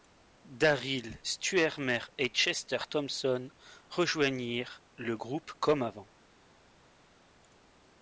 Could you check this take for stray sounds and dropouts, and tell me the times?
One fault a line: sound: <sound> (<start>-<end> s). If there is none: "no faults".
no faults